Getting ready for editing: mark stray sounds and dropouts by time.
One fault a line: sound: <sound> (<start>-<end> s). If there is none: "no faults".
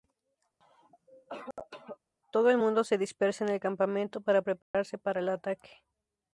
sound: cough (0.6-2.0 s)
sound: dropout (4.6-4.7 s)